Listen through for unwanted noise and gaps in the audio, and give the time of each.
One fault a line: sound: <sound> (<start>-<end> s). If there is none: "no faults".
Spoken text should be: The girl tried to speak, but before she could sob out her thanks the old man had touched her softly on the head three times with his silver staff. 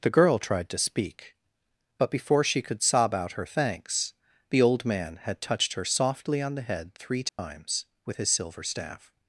sound: dropout (7.3-7.4 s)